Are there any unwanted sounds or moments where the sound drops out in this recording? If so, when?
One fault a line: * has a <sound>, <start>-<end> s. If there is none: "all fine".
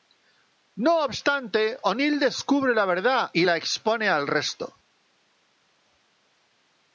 all fine